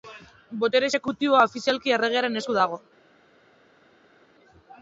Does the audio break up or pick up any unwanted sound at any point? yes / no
no